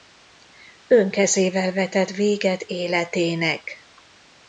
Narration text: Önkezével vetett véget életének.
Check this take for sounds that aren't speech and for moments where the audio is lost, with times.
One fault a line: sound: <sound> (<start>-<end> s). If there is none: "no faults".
no faults